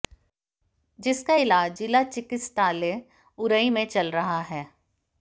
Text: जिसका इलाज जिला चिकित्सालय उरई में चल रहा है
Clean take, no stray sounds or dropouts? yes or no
yes